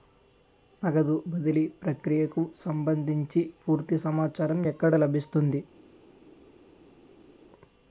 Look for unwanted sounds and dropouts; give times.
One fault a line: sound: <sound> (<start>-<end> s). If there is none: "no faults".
no faults